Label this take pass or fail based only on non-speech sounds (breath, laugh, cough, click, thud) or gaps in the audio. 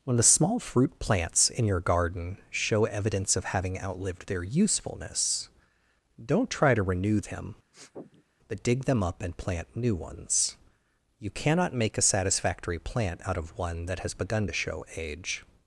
fail